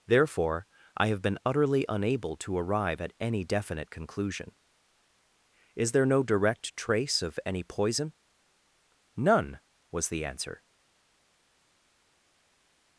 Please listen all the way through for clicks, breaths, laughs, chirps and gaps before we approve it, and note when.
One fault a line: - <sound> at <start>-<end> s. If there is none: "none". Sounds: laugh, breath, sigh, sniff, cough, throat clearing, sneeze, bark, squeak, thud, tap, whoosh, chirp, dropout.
none